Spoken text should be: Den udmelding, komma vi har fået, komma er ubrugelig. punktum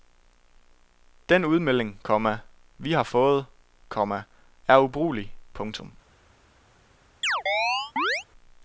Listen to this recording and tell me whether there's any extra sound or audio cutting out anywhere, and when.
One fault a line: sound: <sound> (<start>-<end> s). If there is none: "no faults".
sound: chirp (7.2-8.2 s)